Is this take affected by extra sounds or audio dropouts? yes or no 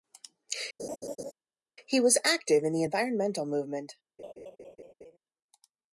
yes